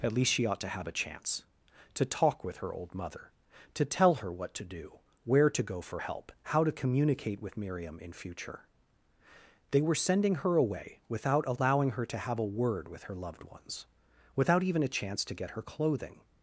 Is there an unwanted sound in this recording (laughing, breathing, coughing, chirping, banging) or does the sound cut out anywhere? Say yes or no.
no